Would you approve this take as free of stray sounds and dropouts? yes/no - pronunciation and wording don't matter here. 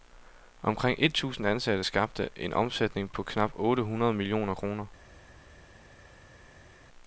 yes